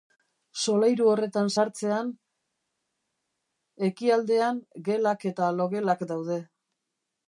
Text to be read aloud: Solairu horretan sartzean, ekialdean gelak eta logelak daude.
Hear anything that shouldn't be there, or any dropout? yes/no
no